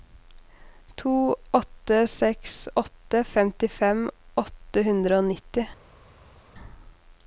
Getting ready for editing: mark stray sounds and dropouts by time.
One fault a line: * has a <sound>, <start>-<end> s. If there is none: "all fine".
all fine